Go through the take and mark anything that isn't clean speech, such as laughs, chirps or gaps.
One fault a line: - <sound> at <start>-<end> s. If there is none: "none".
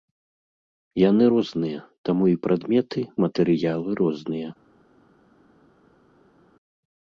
none